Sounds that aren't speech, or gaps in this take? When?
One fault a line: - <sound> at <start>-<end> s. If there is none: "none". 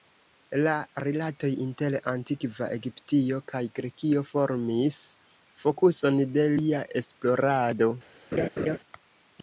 - laugh at 8.3-8.8 s